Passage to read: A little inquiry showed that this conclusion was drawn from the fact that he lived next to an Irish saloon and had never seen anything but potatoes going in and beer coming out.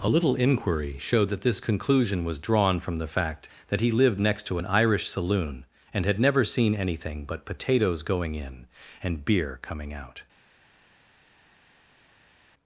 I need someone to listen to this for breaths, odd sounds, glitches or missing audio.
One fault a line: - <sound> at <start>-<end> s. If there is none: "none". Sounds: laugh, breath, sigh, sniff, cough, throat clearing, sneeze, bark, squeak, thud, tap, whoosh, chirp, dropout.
none